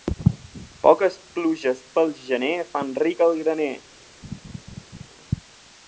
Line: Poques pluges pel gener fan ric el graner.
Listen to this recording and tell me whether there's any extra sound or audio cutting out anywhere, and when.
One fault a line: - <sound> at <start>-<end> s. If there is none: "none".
- laugh at 4.2-5.1 s